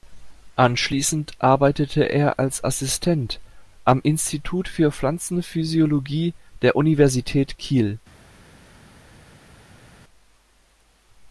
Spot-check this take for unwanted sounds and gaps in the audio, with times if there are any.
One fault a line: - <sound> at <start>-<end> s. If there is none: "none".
none